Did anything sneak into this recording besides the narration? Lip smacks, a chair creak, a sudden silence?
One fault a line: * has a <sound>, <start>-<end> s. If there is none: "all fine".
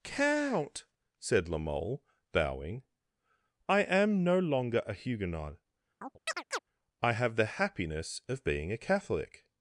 * has a chirp, 6.0-6.6 s